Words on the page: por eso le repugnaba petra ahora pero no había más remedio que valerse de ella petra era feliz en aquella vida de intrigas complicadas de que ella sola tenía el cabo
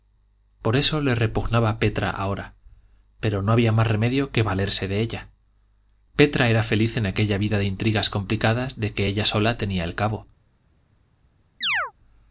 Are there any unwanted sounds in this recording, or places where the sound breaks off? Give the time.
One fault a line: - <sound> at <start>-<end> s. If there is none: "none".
- chirp at 11.6-11.9 s